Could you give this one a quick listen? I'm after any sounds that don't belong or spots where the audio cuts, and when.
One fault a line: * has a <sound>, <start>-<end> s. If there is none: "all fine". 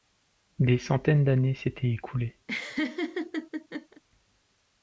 * has a laugh, 2.5-4.0 s